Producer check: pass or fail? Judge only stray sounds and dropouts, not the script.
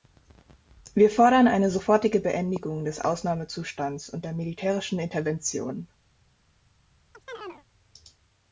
fail